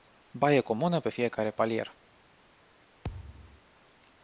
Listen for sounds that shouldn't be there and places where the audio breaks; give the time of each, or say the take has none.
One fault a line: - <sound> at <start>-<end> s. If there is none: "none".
- thud at 3.0-3.6 s